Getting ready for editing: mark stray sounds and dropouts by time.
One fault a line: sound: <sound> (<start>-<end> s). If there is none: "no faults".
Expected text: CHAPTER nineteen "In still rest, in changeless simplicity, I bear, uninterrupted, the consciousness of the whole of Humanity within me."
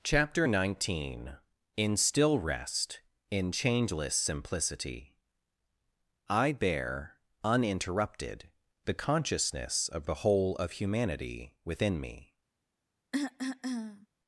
sound: cough (13.1-14.1 s)